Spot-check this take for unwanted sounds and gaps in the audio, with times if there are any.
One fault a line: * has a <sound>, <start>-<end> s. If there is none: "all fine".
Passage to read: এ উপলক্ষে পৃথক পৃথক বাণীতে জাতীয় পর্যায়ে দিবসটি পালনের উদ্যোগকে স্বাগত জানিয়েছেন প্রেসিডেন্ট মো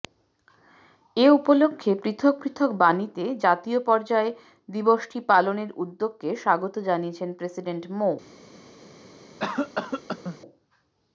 * has a cough, 9.4-10.4 s